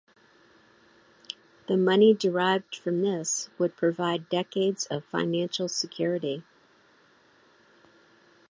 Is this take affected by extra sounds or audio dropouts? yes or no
no